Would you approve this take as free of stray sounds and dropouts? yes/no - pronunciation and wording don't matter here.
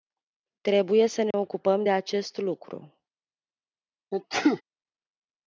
no